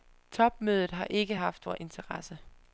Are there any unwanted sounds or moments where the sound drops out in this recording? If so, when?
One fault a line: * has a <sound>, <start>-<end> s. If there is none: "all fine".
all fine